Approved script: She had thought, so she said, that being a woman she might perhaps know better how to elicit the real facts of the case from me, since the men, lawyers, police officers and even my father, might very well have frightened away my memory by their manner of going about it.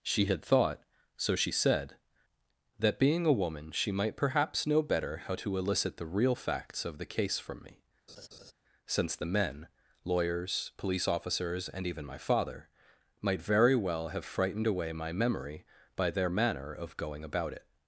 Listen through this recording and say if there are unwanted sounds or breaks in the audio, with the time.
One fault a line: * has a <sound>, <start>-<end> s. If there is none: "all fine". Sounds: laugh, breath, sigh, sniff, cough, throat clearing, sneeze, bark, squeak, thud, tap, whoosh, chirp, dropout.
* has a laugh, 8.1-8.5 s